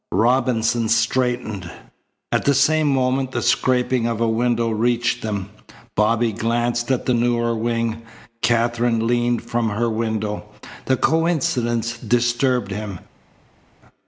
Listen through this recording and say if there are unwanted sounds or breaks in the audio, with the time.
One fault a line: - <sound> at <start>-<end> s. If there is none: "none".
none